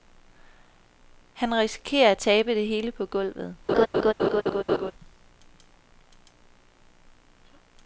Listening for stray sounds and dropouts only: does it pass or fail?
fail